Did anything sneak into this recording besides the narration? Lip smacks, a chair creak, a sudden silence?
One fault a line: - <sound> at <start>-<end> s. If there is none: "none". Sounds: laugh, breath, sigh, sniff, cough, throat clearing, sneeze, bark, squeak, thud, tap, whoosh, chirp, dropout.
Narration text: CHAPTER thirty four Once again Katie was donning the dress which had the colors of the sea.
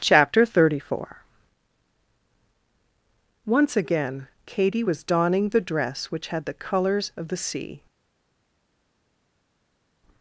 none